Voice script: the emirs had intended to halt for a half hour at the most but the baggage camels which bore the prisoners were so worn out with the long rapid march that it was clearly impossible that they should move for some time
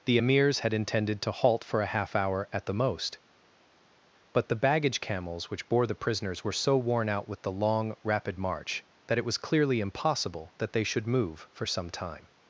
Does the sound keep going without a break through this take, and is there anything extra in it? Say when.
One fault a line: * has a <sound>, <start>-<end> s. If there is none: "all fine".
all fine